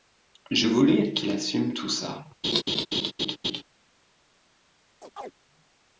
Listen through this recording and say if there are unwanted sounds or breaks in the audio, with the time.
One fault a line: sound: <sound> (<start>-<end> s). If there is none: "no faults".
sound: laugh (2.4-3.6 s)
sound: chirp (5.0-5.3 s)